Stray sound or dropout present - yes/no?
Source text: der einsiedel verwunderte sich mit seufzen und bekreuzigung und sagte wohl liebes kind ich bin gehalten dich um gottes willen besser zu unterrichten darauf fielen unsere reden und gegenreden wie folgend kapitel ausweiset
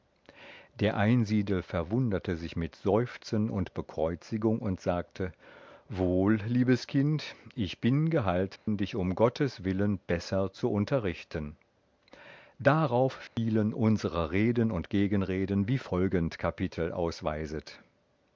yes